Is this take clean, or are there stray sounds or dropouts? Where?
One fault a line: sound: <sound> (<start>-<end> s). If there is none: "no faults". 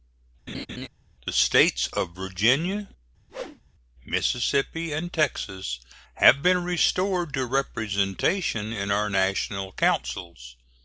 sound: laugh (0.5-0.9 s)
sound: whoosh (3.3-3.6 s)